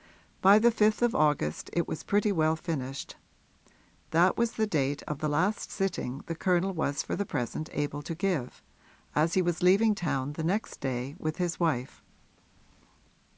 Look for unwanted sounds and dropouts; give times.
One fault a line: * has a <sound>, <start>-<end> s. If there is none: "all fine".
all fine